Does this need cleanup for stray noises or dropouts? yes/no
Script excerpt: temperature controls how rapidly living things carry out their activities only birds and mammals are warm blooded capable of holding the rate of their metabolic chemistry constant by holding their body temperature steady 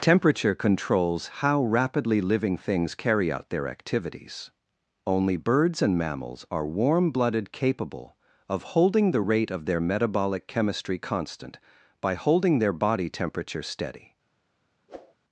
yes